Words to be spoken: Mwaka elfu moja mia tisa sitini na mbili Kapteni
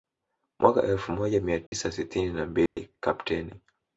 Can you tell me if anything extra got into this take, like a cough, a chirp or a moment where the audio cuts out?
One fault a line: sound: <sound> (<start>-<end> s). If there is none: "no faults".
sound: dropout (1.7-1.7 s)
sound: dropout (2.7-2.8 s)